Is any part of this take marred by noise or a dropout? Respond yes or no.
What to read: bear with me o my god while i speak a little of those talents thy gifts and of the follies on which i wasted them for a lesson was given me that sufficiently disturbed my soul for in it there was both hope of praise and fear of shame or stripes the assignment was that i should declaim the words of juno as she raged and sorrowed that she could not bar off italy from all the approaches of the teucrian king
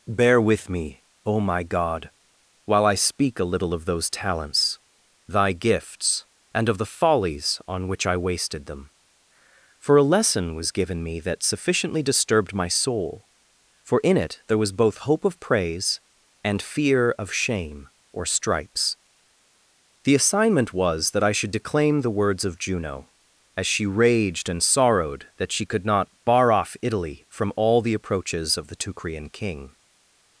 no